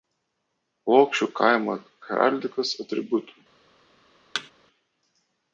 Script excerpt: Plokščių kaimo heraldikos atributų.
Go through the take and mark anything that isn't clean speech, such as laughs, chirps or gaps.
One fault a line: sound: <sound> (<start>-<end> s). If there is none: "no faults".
sound: thud (4.3-4.5 s)